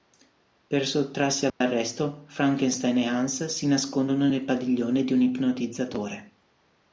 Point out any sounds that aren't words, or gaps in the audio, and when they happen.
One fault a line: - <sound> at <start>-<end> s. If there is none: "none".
- dropout at 1.5-1.6 s